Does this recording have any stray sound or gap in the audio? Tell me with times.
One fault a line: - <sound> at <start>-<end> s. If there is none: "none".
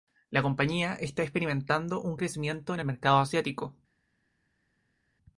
none